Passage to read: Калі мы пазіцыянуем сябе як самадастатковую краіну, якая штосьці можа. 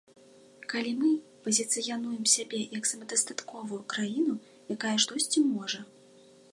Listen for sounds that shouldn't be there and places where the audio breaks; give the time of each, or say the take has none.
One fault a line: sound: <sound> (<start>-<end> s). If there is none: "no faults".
no faults